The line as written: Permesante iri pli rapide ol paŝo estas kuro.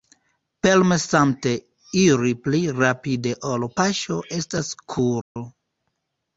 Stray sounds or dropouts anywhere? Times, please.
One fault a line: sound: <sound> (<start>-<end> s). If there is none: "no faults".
sound: dropout (5.2-5.4 s)